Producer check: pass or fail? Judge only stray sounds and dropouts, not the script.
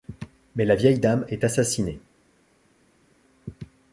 pass